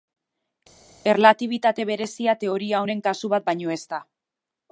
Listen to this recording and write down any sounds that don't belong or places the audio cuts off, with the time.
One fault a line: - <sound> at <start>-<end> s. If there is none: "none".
none